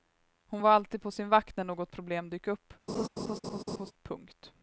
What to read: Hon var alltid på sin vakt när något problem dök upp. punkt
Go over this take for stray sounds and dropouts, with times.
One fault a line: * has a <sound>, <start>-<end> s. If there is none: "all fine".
* has a laugh, 2.9-3.9 s